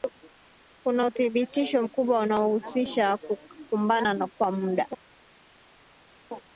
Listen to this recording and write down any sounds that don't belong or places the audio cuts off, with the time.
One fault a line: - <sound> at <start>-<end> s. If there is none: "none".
none